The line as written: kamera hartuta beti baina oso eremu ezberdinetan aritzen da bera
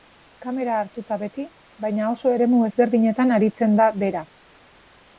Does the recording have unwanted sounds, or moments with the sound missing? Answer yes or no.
no